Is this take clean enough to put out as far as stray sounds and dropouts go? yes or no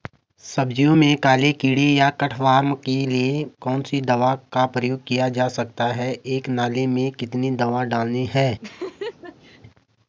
no